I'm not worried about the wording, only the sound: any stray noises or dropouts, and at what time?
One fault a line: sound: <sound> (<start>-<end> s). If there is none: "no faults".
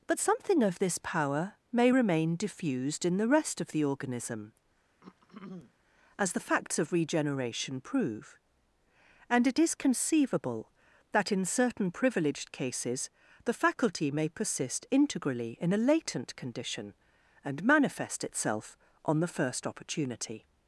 sound: throat clearing (5.0-5.7 s)